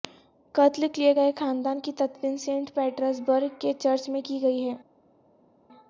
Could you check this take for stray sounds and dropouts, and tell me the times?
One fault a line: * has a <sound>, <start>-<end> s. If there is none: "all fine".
all fine